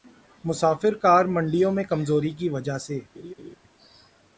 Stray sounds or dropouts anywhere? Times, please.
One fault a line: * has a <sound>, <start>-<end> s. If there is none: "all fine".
* has a laugh, 3.1-3.6 s